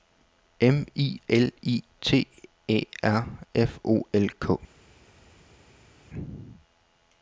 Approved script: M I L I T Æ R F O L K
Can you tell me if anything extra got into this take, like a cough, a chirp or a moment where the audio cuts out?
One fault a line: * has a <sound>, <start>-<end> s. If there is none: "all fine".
all fine